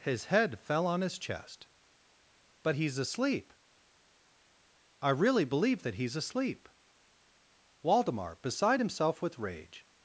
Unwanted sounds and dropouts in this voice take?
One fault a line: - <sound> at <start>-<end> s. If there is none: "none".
none